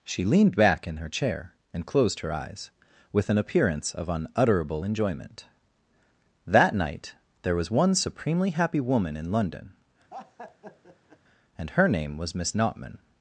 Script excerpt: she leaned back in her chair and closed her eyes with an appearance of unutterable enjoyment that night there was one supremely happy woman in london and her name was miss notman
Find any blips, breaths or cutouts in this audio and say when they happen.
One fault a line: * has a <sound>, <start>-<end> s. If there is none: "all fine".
* has a laugh, 10.1-11.2 s